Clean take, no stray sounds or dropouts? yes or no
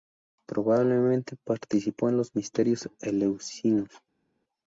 yes